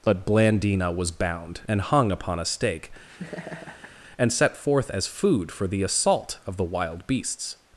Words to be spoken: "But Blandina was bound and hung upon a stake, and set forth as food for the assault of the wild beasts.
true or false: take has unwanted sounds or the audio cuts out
true